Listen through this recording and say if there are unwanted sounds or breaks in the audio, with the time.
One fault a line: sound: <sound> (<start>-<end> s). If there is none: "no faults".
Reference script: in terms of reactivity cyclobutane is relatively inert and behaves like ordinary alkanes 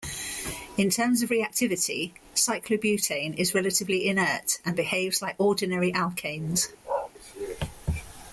sound: bark (6.8-7.1 s)